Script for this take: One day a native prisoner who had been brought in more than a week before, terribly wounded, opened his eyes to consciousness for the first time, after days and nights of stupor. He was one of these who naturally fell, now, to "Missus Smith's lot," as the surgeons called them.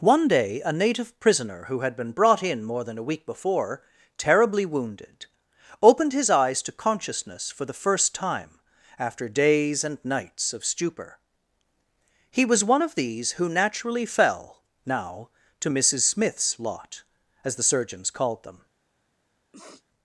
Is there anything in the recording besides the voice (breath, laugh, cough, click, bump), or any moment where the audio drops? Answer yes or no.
yes